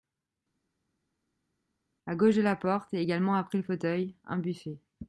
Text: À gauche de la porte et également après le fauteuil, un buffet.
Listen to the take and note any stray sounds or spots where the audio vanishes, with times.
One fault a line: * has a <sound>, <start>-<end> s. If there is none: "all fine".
all fine